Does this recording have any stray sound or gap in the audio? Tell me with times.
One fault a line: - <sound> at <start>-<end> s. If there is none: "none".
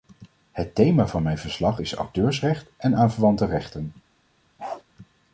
- bark at 4.6-4.8 s